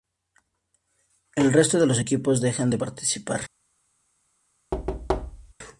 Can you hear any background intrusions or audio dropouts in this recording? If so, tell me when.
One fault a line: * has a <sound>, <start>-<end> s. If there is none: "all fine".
* has a thud, 4.7-5.5 s